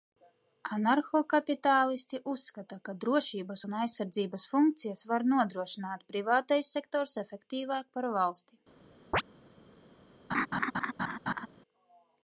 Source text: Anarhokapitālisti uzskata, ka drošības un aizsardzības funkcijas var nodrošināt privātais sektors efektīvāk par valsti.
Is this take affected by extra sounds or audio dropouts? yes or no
yes